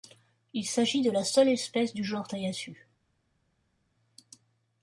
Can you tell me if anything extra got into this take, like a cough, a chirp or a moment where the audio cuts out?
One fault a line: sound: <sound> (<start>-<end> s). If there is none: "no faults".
no faults